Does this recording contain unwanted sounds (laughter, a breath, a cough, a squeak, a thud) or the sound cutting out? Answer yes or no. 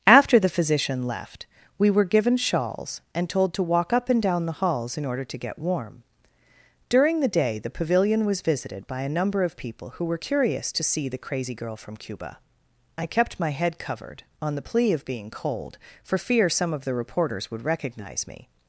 no